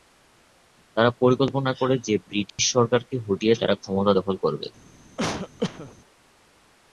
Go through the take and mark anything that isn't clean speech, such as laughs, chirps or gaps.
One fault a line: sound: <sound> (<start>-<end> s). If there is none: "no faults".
sound: dropout (2.5-2.6 s)
sound: cough (5.2-5.9 s)